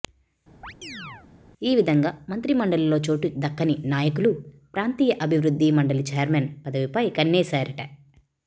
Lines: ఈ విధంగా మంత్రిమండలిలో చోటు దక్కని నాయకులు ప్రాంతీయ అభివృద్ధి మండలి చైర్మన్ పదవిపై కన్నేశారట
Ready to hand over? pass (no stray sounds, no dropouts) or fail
fail